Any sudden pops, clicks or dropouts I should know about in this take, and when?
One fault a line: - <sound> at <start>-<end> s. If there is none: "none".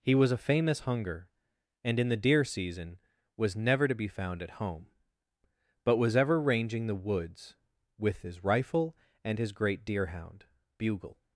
none